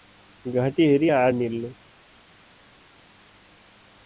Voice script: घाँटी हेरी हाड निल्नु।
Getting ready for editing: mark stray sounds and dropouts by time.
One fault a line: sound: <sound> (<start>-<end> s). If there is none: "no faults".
no faults